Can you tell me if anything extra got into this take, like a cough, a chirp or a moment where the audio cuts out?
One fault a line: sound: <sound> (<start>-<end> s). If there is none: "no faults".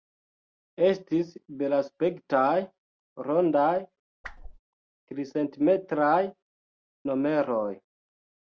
sound: whoosh (4.2-4.6 s)